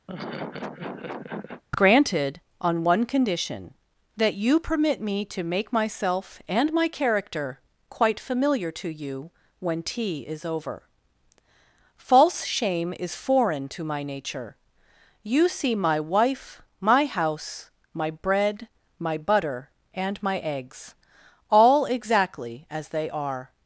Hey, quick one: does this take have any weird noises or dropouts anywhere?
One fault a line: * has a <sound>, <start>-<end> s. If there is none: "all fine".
* has a laugh, 0.1-1.6 s